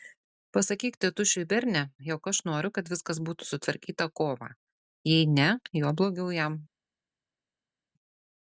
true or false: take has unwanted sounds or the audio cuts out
false